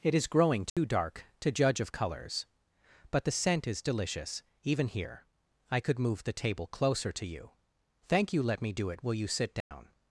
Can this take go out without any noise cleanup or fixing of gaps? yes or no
no